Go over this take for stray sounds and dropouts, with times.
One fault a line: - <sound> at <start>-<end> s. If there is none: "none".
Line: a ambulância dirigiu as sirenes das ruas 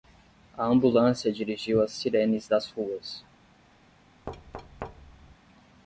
- thud at 4.3-5.4 s